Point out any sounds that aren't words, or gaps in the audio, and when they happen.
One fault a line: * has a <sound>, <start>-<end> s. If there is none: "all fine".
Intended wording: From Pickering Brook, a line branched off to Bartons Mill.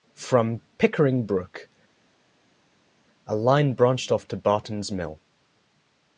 all fine